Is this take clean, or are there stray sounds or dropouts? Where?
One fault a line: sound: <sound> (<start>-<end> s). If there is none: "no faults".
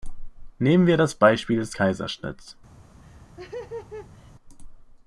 sound: laugh (3.0-4.3 s)